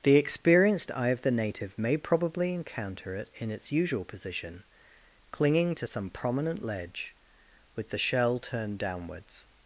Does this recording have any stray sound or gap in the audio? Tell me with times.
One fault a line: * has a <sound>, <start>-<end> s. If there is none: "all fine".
all fine